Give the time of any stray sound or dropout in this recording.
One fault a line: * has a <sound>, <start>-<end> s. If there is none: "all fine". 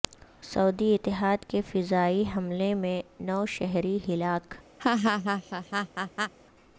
* has a laugh, 4.8-6.3 s